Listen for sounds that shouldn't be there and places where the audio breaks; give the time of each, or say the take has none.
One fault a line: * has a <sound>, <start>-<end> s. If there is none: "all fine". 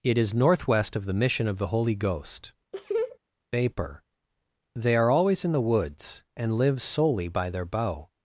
* has a laugh, 2.7-3.2 s